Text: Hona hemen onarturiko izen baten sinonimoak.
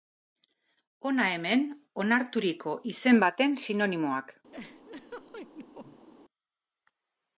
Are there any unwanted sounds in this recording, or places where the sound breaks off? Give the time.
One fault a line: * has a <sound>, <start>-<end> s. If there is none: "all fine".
* has a laugh, 4.5-6.1 s